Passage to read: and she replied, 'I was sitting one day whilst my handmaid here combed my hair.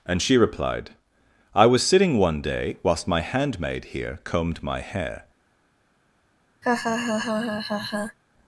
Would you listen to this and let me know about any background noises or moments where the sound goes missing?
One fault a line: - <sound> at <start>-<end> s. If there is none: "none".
- laugh at 6.6-8.2 s